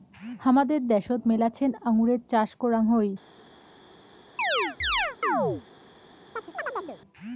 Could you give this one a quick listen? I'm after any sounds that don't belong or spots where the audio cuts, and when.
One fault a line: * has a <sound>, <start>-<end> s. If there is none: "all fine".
* has a chirp, 4.4-5.6 s
* has a chirp, 6.4-7.0 s